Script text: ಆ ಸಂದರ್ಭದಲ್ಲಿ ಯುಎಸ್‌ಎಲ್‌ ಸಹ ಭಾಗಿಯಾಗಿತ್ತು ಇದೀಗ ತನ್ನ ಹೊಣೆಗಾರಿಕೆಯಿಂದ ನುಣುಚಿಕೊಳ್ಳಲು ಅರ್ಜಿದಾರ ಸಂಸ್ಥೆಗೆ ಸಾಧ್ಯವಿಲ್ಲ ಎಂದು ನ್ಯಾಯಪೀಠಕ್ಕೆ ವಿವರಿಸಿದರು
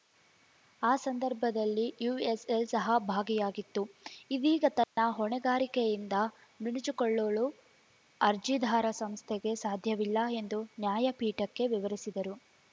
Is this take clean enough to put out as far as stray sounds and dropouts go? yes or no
no